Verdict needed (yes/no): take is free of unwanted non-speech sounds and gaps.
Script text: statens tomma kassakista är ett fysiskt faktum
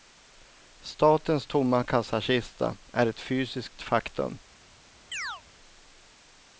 no